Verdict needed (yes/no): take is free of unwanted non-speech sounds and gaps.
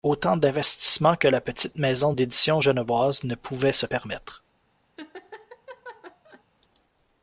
no